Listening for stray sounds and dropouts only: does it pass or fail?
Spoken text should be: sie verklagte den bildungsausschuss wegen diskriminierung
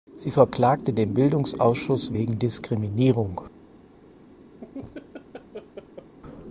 fail